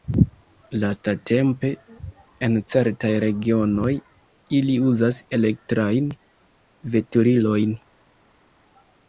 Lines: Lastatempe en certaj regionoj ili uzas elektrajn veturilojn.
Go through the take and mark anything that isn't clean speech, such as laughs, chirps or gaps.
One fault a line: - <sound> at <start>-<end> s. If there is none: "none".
none